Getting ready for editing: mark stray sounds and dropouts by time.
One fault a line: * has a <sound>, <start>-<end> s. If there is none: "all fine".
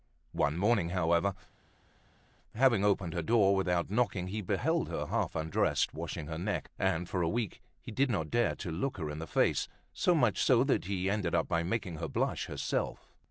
all fine